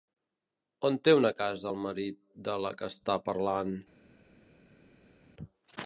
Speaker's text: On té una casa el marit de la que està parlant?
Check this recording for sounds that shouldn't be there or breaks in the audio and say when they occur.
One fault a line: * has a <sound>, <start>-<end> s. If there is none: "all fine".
all fine